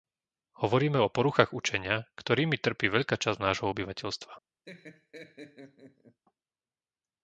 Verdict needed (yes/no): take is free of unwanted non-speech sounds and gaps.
no